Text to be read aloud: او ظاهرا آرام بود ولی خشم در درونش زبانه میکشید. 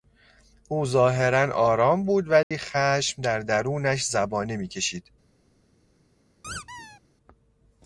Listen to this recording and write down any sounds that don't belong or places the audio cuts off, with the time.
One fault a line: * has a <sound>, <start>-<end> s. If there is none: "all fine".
* has a dropout, 2.4-2.5 s
* has a squeak, 6.4-7.0 s